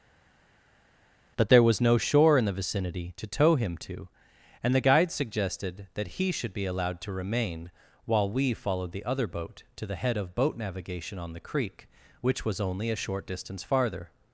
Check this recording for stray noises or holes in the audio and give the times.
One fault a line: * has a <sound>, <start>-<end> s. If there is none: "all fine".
all fine